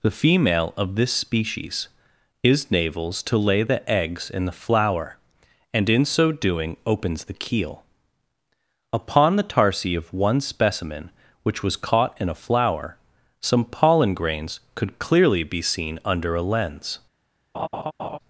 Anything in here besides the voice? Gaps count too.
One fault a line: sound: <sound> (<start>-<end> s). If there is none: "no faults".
sound: laugh (17.5-18.2 s)